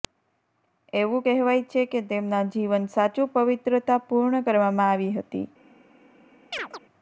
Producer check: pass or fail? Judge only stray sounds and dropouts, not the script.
fail